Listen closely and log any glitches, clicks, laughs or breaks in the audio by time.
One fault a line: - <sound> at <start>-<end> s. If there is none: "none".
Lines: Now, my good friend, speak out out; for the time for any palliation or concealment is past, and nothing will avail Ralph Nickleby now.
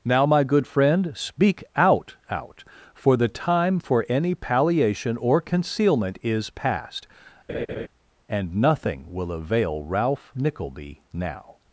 - laugh at 7.5-7.9 s